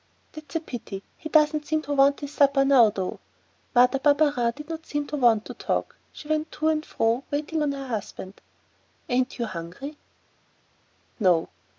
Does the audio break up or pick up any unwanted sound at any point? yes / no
no